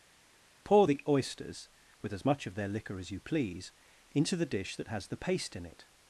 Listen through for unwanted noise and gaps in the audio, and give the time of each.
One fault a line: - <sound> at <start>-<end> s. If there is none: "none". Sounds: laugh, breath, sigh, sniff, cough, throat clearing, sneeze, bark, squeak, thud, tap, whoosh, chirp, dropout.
none